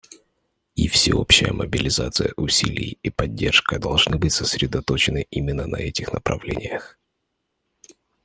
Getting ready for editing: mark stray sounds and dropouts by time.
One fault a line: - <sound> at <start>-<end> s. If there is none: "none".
none